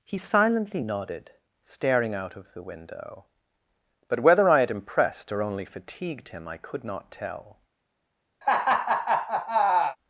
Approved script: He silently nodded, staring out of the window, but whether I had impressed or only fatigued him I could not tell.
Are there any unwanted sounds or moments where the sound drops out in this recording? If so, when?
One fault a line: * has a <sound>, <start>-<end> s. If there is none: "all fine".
* has a laugh, 8.4-10.0 s